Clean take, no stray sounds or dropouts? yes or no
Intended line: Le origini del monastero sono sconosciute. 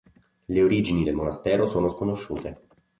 yes